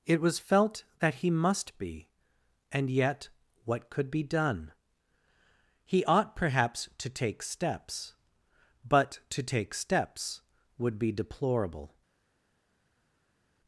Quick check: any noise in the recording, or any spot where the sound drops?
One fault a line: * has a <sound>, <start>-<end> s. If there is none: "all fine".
all fine